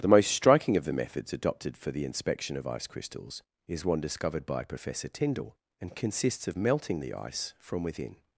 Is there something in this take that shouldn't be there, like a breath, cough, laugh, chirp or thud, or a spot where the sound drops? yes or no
no